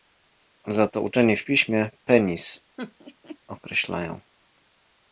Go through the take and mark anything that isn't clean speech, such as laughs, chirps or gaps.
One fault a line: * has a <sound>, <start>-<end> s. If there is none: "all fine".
* has a laugh, 2.8-3.4 s